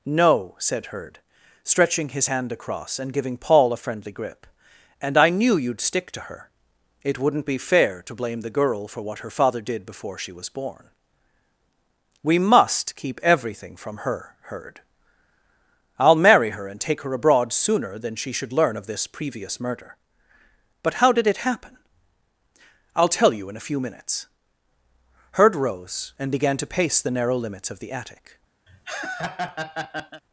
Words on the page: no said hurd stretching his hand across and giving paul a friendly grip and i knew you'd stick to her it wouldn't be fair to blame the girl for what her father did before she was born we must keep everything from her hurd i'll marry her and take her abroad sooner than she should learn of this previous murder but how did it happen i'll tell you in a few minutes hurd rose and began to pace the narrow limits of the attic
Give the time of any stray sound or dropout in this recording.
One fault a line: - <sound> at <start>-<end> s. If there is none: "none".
- laugh at 28.7-30.2 s